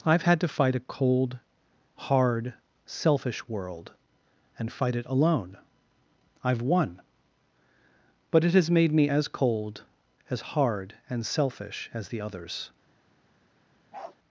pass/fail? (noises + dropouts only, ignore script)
fail